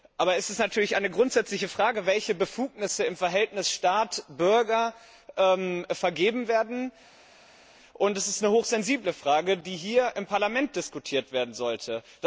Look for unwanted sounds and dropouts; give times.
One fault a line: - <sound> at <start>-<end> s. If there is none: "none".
none